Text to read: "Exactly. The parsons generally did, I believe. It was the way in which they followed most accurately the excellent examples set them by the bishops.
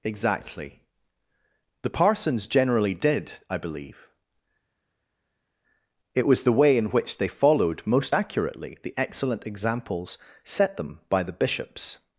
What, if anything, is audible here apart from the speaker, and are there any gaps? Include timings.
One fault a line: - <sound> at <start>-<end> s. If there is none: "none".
none